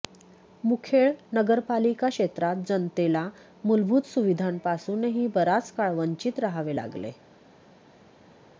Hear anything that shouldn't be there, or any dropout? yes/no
no